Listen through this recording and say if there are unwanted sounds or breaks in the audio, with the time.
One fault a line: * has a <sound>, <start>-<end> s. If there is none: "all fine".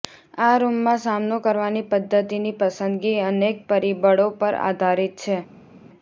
all fine